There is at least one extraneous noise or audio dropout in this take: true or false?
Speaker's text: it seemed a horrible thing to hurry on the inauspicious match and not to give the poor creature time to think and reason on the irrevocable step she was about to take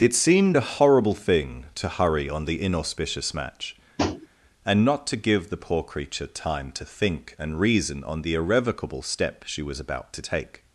true